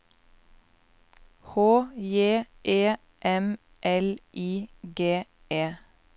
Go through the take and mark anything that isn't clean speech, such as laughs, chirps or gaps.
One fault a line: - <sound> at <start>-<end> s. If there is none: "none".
none